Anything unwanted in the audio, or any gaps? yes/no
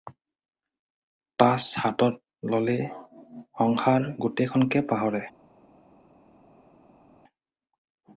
no